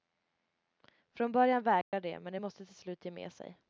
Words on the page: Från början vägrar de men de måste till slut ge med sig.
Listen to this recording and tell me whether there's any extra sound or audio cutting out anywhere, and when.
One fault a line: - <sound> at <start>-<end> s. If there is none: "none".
- dropout at 1.8-1.9 s